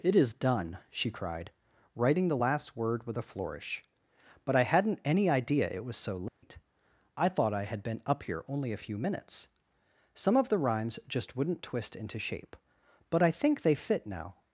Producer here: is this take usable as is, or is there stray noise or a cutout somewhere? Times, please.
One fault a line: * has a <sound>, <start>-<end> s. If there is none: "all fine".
* has a dropout, 6.3-6.4 s